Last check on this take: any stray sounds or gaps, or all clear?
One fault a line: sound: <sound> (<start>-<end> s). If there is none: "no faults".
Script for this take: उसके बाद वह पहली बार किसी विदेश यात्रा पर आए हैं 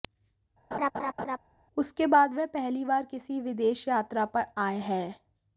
sound: laugh (0.7-1.4 s)